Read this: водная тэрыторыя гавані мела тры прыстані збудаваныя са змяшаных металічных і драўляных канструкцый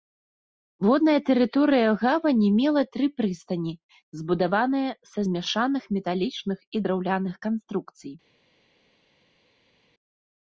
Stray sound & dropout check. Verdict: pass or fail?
pass